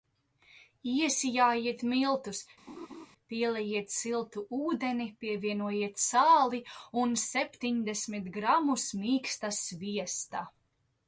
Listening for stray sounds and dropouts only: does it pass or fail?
fail